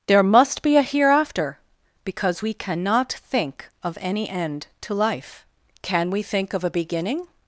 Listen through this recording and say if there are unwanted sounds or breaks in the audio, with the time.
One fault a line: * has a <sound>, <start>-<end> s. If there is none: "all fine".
all fine